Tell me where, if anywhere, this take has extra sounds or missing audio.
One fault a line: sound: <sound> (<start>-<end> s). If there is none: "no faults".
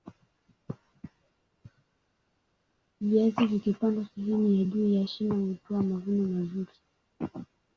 no faults